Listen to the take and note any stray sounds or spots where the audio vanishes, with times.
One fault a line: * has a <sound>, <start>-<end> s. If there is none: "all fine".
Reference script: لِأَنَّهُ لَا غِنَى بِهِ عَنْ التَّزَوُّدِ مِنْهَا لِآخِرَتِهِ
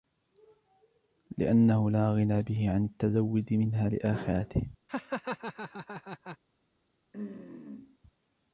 * has a laugh, 4.9-6.4 s
* has a throat clearing, 7.1-8.0 s